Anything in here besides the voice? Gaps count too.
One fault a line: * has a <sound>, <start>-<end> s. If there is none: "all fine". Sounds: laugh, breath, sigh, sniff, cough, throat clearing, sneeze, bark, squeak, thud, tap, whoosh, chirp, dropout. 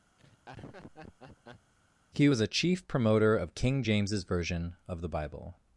* has a laugh, 0.2-1.7 s